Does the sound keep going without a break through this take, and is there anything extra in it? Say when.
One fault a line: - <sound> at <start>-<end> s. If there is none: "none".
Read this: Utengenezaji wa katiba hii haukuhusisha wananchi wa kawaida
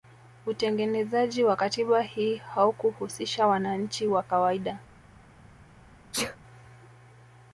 - sneeze at 6.1-6.4 s